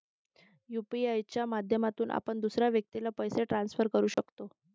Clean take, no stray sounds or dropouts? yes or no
no